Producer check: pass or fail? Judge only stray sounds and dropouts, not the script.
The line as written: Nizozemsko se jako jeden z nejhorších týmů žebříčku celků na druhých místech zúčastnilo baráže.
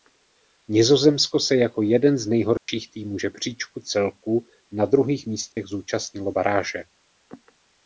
fail